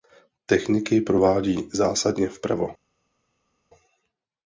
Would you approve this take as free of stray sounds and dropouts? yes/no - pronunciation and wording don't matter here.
yes